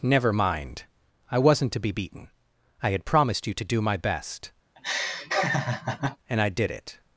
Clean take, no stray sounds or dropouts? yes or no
no